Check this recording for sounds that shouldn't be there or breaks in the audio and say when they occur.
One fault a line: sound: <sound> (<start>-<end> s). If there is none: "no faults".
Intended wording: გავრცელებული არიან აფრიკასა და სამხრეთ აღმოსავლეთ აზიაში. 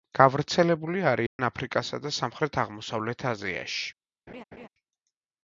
sound: dropout (1.3-1.4 s)
sound: laugh (4.3-4.7 s)